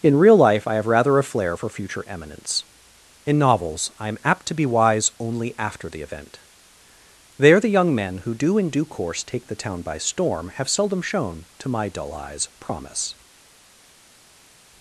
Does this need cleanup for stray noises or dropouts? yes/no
no